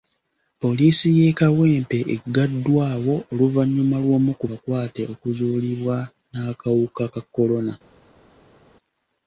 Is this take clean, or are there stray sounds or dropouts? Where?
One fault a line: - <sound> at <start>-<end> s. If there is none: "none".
none